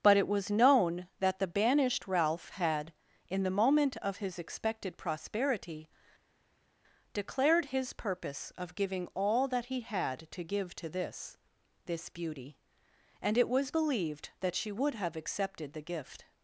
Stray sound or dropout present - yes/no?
no